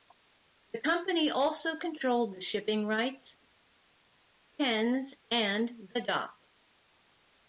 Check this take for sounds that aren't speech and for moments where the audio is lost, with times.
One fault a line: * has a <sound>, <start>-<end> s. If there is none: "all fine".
all fine